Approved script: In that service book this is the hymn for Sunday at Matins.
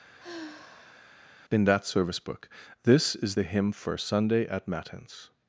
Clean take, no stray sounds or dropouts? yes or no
no